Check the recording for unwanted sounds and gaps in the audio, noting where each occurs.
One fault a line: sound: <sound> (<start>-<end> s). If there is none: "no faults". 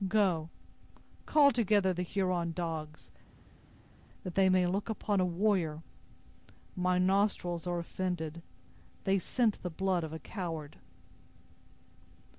no faults